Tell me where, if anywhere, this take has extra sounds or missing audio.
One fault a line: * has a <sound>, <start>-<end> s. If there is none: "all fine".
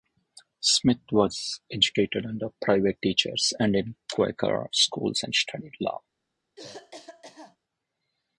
* has a cough, 6.6-7.6 s